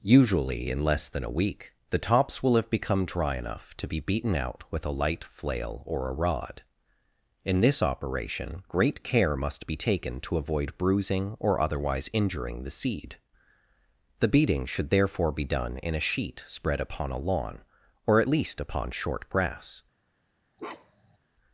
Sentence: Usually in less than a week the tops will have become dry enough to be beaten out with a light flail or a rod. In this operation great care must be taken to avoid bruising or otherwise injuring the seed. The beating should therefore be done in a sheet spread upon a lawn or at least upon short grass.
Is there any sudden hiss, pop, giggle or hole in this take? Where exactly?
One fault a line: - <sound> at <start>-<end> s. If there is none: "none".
- bark at 20.6-21.2 s